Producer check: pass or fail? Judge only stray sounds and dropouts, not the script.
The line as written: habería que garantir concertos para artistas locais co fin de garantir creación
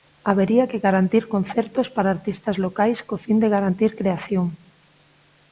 pass